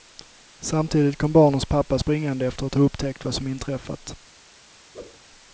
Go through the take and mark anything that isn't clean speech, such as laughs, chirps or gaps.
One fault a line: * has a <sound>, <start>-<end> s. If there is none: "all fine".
* has a whoosh, 4.9-5.2 s